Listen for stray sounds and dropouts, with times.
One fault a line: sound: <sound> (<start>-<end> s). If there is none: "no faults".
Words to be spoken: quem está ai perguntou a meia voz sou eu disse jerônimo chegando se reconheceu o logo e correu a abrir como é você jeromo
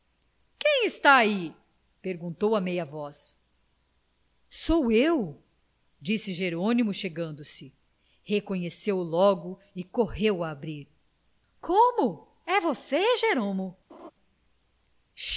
sound: laugh (13.9-14.1 s)